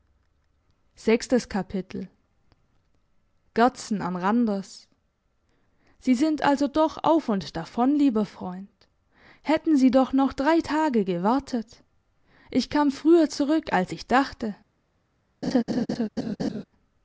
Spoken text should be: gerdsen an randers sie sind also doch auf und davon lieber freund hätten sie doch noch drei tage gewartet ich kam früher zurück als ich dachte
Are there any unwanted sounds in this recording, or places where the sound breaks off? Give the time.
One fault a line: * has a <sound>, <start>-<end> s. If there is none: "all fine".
* has a laugh, 15.4-16.6 s